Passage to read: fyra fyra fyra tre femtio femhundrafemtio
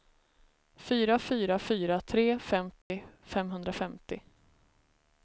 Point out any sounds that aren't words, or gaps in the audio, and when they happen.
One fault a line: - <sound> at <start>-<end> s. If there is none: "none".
- dropout at 2.8-2.9 s